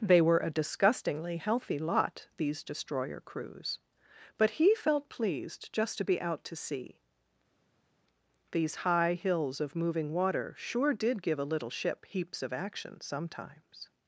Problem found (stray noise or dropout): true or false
false